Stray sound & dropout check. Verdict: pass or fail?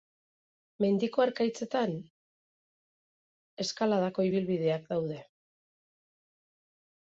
pass